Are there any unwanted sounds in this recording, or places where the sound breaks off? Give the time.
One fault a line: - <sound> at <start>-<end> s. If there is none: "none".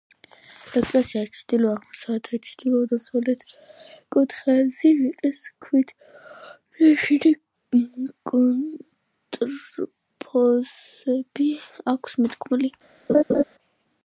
- laugh at 13.1-13.4 s